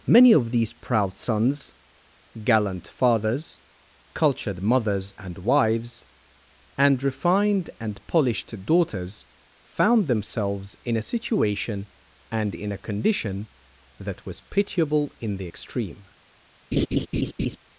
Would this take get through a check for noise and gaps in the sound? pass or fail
fail